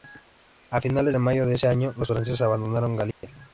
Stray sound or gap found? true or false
true